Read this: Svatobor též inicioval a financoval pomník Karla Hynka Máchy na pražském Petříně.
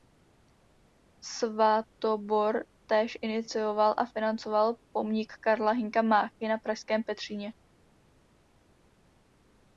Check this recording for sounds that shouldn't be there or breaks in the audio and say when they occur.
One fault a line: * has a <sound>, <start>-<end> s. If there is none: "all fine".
all fine